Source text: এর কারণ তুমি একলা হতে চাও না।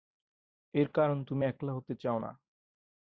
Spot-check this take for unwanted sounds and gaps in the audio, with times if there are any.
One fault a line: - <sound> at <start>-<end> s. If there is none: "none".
none